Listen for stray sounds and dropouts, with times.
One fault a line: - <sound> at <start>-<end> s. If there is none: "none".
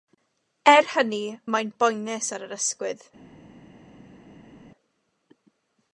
none